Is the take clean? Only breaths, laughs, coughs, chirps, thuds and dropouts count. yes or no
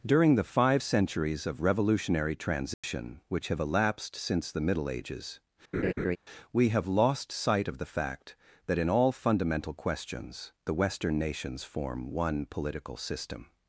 no